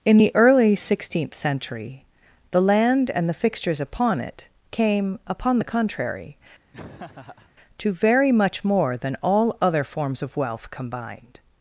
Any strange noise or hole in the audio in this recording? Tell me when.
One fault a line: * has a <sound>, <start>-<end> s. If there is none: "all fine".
* has a laugh, 6.7-7.5 s